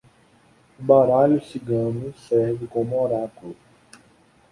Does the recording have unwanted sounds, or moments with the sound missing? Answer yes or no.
no